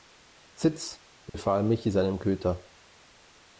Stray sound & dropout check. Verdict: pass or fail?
fail